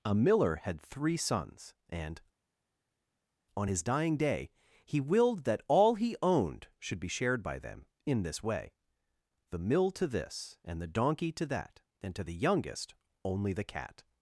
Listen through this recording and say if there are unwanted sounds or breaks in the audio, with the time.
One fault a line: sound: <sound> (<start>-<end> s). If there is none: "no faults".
no faults